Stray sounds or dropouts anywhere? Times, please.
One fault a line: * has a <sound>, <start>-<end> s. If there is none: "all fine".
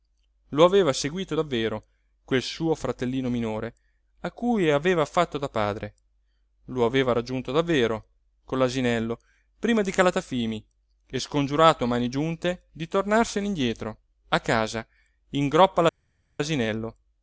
all fine